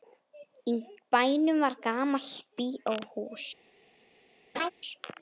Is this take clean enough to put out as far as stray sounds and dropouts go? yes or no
no